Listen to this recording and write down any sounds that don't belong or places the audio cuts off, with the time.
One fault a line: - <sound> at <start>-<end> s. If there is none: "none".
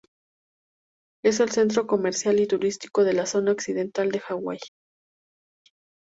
none